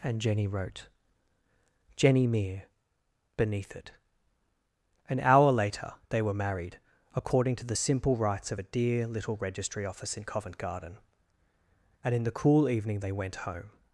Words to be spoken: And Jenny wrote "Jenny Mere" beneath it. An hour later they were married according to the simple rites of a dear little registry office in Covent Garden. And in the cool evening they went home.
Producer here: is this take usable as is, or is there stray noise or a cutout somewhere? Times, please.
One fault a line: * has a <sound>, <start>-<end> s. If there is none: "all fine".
all fine